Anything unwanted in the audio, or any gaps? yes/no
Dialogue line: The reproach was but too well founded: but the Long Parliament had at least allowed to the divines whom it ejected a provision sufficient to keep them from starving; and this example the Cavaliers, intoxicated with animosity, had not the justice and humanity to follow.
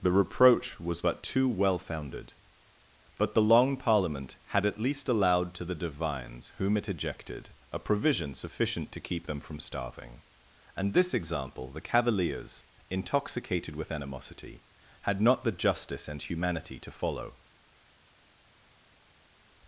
no